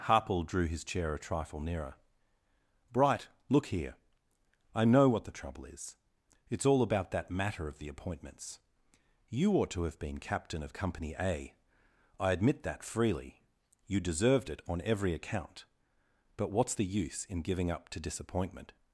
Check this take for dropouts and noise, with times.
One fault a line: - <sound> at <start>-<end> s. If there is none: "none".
none